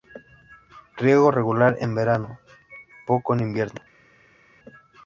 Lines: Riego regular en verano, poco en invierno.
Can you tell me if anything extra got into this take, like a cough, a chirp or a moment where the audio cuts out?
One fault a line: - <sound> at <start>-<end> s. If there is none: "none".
none